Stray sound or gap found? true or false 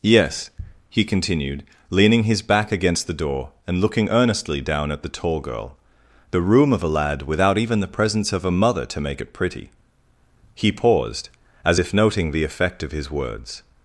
false